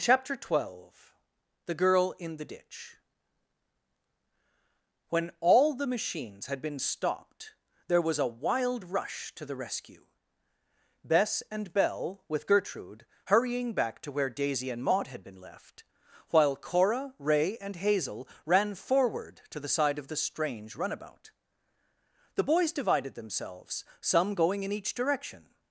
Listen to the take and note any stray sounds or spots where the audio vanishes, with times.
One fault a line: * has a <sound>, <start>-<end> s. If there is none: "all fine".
all fine